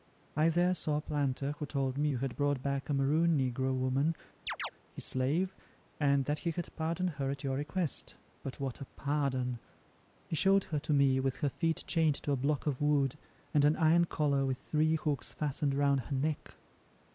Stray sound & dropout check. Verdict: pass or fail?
fail